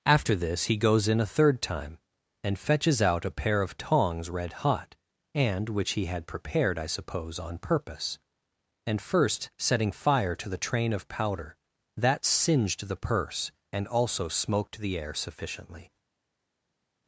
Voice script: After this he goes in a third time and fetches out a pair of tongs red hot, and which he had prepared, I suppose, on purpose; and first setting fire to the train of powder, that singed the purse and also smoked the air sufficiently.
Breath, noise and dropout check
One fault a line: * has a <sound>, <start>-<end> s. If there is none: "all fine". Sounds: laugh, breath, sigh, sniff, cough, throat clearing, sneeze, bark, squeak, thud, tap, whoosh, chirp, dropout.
all fine